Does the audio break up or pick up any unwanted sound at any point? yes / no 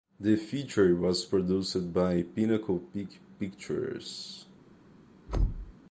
yes